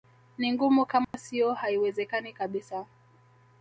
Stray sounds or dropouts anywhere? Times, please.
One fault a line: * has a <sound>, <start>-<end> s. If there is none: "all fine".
* has a dropout, 1.0-1.1 s